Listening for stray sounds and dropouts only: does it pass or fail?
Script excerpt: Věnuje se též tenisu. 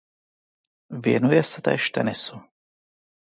pass